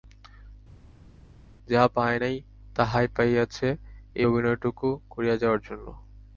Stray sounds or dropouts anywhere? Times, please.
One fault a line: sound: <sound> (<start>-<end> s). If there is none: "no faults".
no faults